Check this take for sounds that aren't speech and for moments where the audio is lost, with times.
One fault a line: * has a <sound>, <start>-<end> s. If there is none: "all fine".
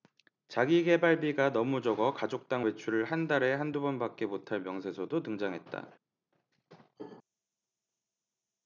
all fine